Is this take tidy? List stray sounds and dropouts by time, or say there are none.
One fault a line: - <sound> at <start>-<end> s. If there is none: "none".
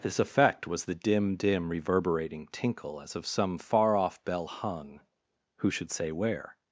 none